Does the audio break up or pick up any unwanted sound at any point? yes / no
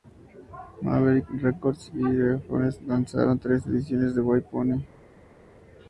no